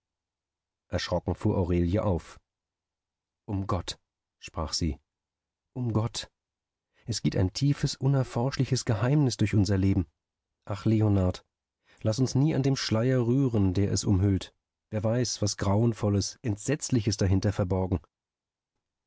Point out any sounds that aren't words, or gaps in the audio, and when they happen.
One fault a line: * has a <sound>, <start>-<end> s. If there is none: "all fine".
all fine